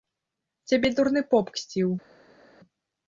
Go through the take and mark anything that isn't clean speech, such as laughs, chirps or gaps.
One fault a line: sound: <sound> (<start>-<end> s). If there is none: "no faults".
no faults